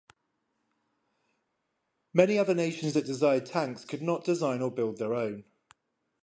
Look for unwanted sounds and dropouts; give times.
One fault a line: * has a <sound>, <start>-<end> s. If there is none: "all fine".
all fine